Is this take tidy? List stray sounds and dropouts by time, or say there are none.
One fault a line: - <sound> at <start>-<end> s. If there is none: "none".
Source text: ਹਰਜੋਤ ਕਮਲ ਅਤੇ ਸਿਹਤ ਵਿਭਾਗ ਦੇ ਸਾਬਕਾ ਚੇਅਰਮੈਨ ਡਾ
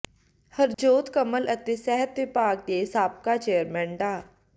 - dropout at 0.7-0.8 s